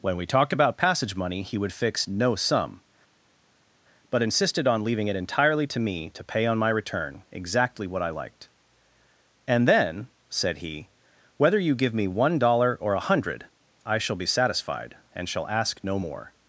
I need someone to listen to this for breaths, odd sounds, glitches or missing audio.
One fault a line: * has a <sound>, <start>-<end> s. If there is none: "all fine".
all fine